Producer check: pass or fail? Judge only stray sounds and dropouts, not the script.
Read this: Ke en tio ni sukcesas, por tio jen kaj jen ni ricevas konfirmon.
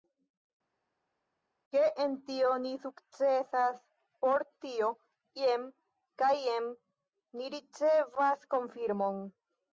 pass